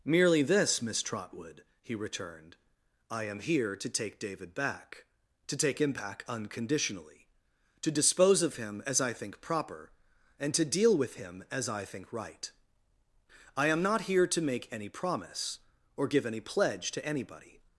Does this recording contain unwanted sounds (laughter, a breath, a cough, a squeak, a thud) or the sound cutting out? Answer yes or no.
no